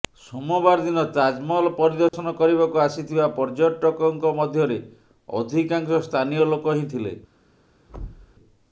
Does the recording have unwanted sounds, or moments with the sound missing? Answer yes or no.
yes